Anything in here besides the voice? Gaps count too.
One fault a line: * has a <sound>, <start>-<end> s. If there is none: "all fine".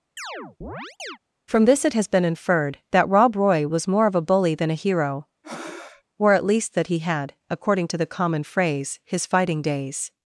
* has a chirp, 0.2-1.2 s
* has a breath, 5.4-6.0 s